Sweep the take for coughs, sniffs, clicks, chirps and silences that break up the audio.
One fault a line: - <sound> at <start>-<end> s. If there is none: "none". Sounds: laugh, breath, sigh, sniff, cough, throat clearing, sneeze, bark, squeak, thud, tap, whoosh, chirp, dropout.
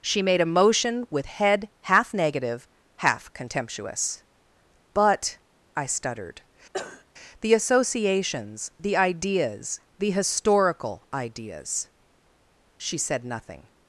- cough at 6.7-7.0 s